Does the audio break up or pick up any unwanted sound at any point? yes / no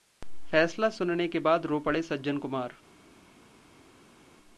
no